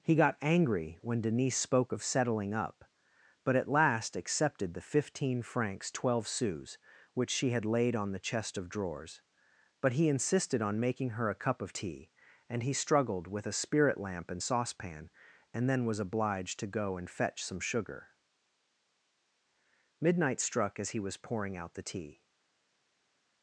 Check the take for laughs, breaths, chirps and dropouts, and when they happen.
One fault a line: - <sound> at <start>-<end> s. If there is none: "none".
none